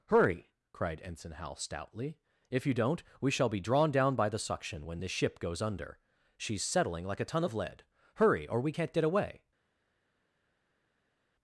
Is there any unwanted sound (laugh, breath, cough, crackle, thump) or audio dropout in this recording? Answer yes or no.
no